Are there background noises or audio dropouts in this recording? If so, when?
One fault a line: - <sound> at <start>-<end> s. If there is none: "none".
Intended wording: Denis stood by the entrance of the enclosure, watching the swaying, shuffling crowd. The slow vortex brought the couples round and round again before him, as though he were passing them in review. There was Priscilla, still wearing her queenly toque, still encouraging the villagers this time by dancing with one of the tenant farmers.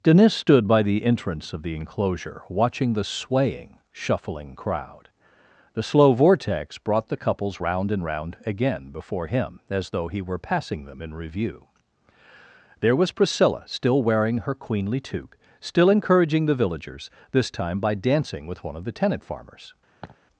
- laugh at 20.0-20.2 s